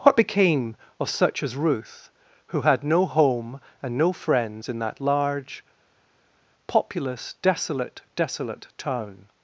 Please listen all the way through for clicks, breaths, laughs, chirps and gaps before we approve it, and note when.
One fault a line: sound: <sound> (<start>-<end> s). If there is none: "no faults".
no faults